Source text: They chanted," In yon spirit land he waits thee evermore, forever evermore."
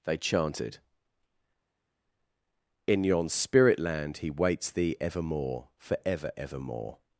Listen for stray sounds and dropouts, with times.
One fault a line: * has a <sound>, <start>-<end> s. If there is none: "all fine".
all fine